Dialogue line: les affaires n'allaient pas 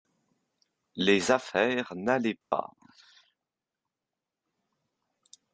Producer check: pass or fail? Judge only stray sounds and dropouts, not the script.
fail